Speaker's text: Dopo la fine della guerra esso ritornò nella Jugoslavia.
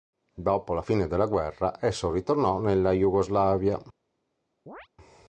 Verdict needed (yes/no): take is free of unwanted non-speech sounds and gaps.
no